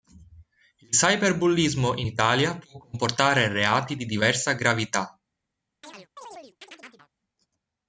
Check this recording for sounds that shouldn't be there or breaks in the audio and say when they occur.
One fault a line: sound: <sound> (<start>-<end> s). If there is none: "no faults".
sound: chirp (5.8-7.1 s)